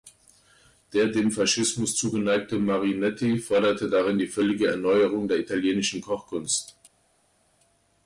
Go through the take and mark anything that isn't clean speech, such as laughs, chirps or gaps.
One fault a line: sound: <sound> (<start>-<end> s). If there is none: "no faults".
no faults